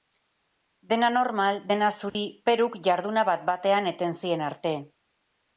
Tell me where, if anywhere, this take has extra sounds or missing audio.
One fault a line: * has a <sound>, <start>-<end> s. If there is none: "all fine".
* has a dropout, 2.1-2.1 s